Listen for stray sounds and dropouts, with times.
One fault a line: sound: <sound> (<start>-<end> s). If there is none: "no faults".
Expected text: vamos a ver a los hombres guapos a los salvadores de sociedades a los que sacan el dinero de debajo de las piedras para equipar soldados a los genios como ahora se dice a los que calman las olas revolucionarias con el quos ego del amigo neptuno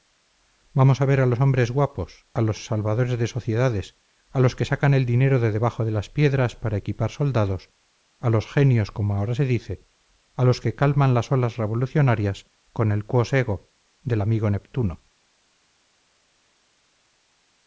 no faults